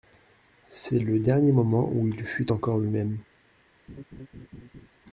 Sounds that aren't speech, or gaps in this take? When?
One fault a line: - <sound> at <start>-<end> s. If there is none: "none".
- laugh at 3.9-4.9 s